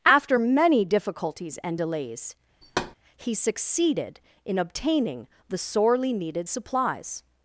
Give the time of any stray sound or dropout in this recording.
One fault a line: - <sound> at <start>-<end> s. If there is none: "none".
- thud at 2.6-3.0 s